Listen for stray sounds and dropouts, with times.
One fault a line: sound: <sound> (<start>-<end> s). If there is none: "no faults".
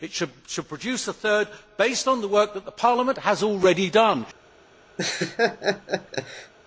sound: laugh (5.0-6.5 s)